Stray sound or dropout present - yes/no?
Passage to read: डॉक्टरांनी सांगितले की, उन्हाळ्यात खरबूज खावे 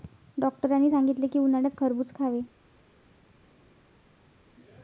no